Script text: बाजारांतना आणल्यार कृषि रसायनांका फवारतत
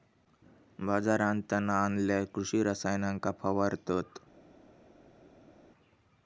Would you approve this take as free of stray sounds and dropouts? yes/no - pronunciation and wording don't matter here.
yes